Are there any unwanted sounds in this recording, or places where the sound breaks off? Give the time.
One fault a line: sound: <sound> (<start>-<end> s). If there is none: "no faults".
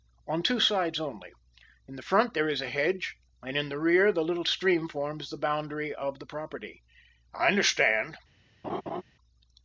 sound: laugh (8.6-9.0 s)